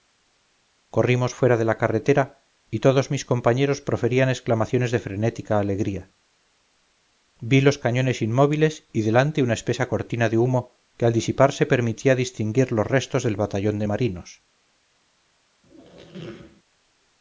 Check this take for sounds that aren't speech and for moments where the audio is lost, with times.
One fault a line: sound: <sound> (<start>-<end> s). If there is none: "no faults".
sound: squeak (15.6-16.6 s)